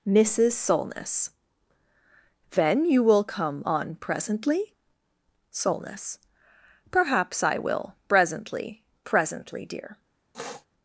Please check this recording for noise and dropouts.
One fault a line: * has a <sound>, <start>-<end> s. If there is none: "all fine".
* has a sniff, 10.3-10.7 s